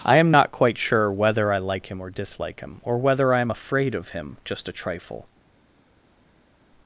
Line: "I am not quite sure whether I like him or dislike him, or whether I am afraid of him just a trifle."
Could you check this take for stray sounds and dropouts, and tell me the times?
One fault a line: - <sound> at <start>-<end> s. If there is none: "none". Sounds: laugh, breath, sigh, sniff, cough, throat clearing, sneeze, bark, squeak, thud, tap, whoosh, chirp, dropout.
none